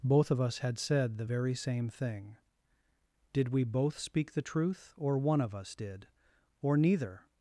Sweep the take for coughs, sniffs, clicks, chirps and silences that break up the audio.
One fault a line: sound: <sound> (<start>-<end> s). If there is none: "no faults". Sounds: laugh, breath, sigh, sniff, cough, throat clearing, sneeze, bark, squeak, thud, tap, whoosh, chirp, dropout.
no faults